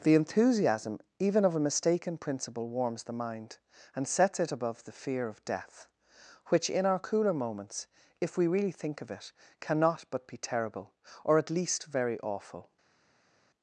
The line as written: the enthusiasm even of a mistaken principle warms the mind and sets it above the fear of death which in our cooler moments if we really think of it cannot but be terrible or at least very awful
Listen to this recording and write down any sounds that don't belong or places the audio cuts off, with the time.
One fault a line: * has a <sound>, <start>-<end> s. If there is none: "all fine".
all fine